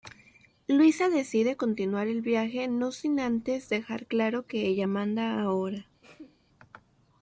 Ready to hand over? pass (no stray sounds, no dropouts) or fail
fail